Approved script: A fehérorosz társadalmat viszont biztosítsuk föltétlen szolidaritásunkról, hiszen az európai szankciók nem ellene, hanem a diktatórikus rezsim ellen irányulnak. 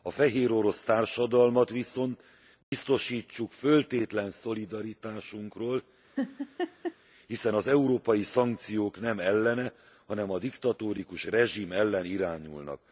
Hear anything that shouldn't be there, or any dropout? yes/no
yes